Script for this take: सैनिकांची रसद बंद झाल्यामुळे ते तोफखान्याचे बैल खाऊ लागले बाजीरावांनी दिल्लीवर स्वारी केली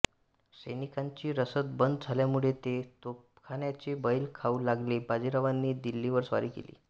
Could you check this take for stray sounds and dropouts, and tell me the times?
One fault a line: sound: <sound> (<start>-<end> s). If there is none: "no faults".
no faults